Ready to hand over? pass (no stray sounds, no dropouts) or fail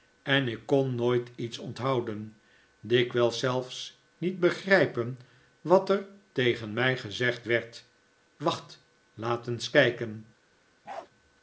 fail